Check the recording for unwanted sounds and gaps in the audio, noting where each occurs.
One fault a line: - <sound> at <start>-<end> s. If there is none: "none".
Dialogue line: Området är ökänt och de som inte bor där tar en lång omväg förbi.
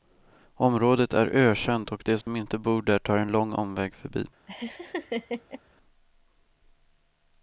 - dropout at 2.2-2.3 s
- laugh at 4.5-5.6 s